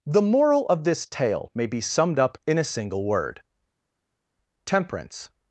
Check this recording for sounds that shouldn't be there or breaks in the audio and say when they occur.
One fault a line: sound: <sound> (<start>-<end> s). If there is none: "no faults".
no faults